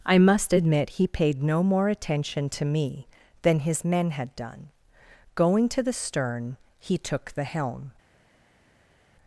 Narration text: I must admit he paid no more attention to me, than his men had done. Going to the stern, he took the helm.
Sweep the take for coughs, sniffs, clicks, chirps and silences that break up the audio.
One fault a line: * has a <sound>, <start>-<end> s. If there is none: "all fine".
all fine